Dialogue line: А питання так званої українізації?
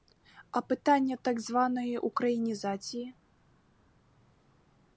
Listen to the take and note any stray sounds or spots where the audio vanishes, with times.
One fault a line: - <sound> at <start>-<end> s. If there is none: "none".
none